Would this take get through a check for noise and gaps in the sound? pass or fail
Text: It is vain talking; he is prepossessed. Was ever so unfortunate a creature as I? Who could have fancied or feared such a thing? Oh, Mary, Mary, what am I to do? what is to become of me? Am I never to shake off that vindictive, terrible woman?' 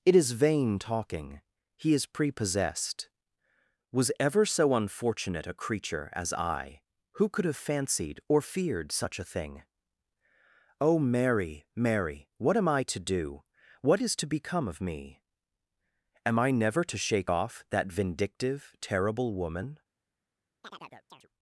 fail